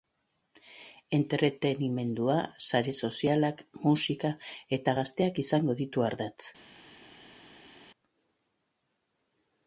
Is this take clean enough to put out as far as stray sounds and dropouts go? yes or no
yes